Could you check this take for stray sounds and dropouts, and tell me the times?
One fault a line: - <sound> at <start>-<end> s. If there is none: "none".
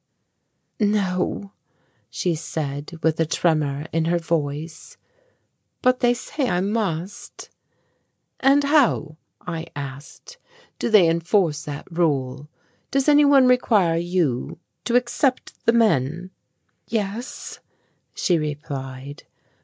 none